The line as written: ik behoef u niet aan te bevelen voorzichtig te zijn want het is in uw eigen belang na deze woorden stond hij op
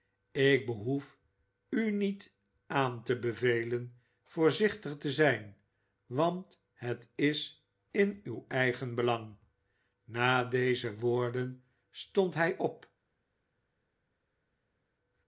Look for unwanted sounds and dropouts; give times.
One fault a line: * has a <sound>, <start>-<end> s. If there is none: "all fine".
all fine